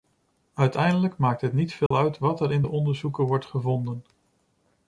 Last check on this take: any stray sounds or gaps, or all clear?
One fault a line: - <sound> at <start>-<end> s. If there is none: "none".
- dropout at 1.9-1.9 s